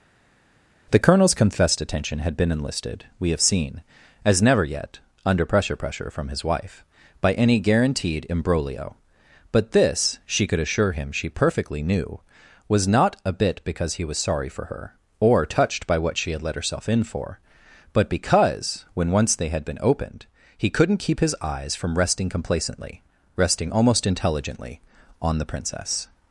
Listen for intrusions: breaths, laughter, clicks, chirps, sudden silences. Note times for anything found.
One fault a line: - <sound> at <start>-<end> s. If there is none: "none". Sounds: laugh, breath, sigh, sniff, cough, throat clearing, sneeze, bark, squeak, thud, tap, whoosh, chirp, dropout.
none